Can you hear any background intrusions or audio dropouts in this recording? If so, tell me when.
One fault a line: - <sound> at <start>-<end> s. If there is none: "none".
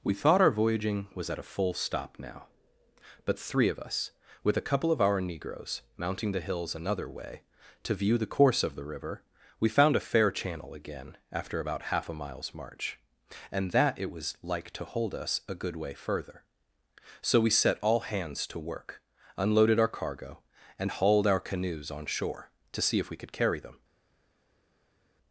none